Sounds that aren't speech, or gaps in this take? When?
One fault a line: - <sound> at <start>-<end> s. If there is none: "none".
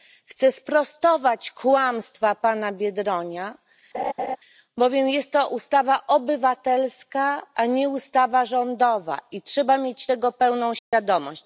- laugh at 3.9-4.4 s
- dropout at 10.8-10.9 s